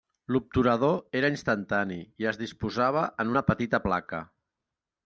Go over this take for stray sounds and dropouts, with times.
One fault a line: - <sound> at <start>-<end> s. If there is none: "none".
none